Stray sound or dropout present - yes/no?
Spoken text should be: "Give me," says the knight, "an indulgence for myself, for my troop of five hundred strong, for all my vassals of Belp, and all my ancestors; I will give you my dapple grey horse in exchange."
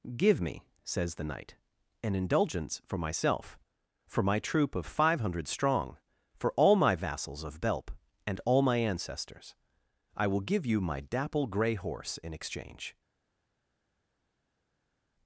no